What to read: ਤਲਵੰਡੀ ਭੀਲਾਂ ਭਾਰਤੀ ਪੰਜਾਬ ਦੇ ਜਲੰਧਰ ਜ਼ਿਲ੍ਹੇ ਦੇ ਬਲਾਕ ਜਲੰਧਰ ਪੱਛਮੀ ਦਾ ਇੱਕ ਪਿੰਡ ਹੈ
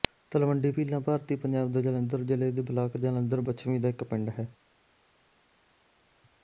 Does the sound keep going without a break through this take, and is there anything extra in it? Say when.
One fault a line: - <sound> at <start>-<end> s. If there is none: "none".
none